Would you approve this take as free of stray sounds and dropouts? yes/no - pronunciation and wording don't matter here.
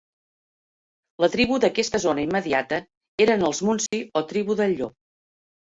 no